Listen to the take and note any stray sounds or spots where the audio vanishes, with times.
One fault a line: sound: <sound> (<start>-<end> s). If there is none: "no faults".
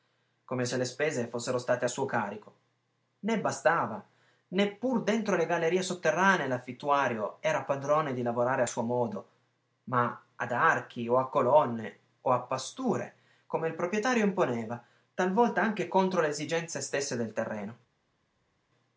no faults